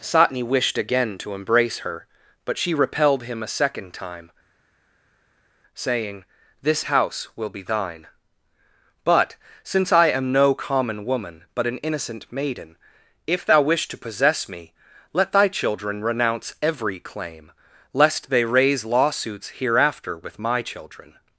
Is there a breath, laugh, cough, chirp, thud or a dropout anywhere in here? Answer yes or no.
no